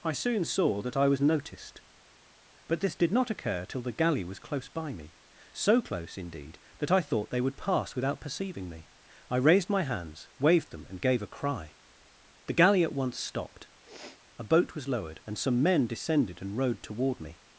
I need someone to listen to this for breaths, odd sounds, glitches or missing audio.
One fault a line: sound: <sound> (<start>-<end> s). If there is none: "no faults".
sound: sniff (13.8-14.2 s)